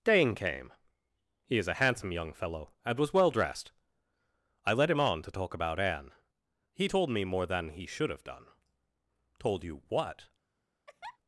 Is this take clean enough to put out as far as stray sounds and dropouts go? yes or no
no